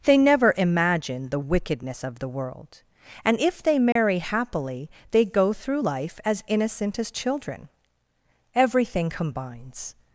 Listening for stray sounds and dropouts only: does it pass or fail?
fail